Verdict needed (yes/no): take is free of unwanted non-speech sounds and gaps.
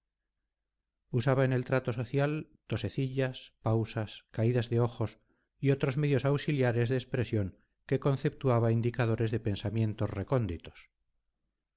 yes